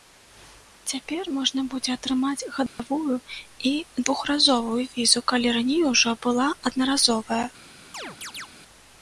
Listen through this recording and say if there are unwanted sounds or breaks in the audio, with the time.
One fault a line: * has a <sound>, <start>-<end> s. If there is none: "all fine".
* has a dropout, 2.7-2.8 s
* has a chirp, 7.9-8.5 s